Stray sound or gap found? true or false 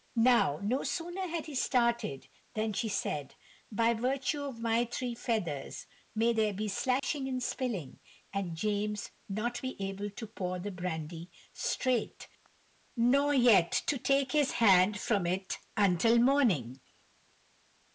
true